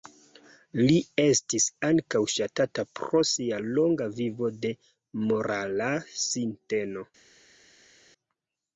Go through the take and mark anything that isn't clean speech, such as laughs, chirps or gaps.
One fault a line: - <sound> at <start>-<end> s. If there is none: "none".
none